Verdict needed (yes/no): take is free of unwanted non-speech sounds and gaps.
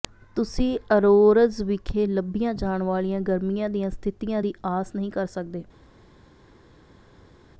yes